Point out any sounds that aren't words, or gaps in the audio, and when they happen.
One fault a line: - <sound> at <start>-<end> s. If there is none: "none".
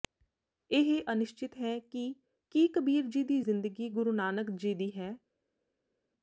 none